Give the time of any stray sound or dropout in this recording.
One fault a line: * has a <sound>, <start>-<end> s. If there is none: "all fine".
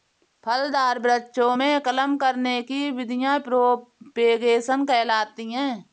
all fine